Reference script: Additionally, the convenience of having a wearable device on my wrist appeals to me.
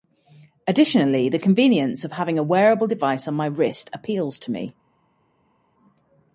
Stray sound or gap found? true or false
false